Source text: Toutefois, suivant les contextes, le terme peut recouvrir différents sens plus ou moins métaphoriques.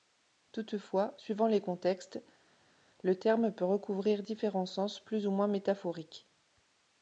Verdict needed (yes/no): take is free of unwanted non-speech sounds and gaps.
yes